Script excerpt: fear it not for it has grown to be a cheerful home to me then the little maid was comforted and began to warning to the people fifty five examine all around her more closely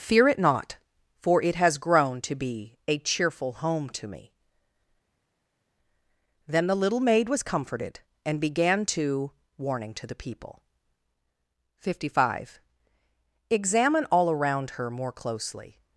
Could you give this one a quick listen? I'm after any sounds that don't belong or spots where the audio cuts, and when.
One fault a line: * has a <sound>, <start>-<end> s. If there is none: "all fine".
all fine